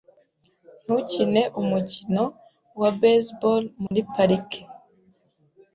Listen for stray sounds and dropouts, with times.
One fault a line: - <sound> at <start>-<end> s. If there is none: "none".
- dropout at 3.9-3.9 s